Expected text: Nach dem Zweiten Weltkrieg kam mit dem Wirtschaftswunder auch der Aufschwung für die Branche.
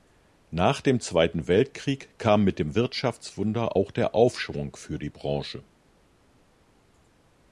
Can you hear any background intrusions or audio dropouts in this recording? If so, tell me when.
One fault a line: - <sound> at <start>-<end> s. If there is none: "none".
none